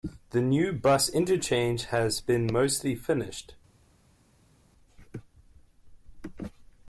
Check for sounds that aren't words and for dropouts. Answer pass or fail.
pass